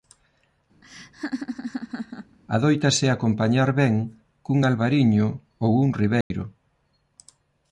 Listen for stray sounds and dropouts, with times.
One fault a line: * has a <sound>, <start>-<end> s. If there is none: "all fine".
* has a laugh, 0.8-2.4 s
* has a dropout, 6.2-6.3 s